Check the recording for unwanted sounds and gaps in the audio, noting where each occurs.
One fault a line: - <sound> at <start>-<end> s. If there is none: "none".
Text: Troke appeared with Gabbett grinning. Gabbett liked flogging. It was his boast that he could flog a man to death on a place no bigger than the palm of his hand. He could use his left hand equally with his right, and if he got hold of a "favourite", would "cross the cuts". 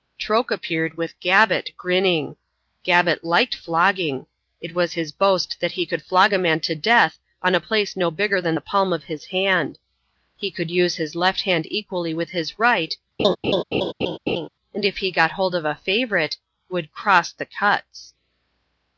- laugh at 13.2-14.5 s